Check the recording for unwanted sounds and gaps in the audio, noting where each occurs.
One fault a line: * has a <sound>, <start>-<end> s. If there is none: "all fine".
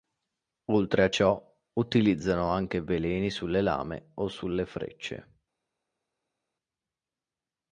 all fine